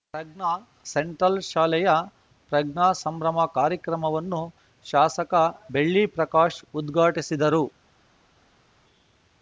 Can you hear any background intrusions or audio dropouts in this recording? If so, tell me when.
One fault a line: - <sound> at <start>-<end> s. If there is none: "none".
none